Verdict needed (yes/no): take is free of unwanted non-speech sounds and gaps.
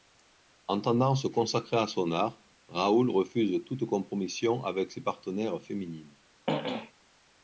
no